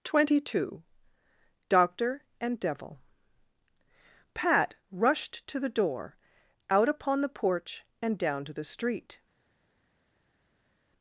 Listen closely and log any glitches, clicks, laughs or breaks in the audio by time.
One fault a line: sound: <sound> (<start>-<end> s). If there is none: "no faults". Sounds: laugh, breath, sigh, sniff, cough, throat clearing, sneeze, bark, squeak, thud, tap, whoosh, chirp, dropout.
no faults